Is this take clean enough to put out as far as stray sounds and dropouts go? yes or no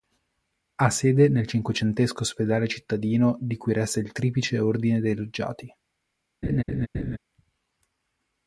no